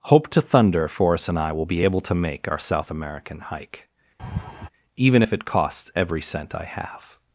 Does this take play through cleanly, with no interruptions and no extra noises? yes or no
no